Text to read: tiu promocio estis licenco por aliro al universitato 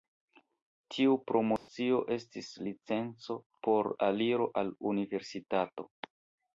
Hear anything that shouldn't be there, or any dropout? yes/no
yes